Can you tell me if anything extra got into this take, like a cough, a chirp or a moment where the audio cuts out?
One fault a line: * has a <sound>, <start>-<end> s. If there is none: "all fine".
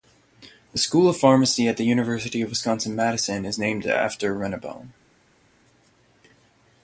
all fine